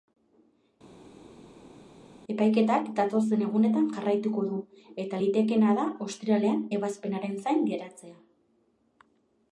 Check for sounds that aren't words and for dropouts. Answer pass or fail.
pass